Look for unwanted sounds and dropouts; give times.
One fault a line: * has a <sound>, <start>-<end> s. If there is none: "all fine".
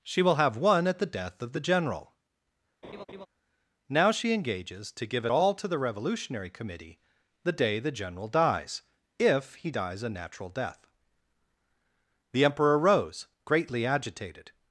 * has a laugh, 2.8-3.3 s